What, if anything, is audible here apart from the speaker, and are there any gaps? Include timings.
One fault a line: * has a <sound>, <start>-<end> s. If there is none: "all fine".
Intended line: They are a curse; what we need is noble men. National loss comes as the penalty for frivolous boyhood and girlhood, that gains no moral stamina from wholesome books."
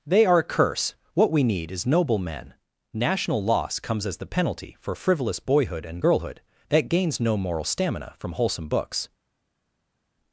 all fine